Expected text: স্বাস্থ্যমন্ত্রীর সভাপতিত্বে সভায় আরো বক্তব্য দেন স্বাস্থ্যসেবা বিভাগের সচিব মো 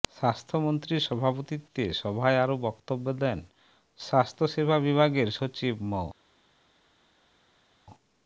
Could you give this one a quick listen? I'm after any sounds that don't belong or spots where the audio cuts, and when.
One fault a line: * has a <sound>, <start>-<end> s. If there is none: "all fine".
all fine